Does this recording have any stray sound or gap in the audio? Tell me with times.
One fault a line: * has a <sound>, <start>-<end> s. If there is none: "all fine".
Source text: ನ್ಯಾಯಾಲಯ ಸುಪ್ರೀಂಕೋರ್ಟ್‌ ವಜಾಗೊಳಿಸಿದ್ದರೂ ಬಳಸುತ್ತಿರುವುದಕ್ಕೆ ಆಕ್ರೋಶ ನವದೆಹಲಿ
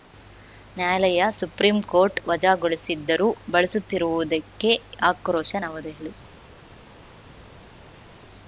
all fine